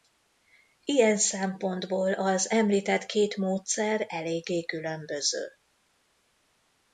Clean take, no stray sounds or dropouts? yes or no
yes